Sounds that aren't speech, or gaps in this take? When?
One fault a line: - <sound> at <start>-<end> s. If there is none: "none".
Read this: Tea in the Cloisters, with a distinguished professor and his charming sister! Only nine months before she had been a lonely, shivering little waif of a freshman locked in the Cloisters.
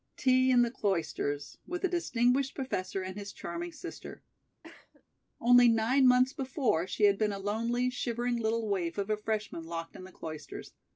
- cough at 4.6-5.0 s